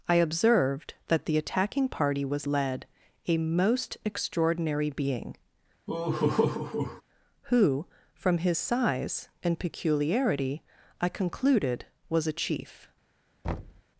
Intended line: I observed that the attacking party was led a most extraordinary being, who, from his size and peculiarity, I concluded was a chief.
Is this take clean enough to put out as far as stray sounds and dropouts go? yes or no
no